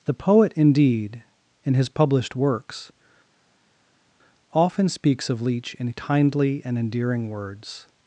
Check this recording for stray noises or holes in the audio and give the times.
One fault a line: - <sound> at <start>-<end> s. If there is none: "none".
none